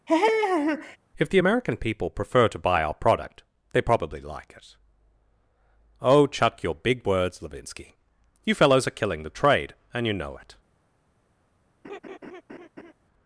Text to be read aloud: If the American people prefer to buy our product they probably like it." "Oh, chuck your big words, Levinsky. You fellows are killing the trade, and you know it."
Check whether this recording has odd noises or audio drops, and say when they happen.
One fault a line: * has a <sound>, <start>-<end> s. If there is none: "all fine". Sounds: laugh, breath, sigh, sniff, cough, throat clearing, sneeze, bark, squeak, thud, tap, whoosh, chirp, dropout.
* has a laugh, 0.1-1.0 s
* has a laugh, 11.8-12.9 s